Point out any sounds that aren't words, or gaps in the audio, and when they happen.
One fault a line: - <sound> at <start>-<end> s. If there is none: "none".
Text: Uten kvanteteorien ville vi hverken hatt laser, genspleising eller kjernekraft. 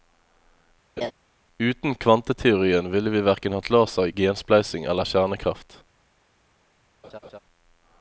- laugh at 1.0-1.1 s
- laugh at 7.0-7.4 s